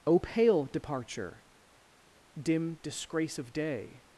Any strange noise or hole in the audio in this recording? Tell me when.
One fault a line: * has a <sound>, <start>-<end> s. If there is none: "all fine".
all fine